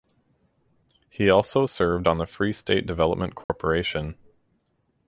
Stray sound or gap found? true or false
true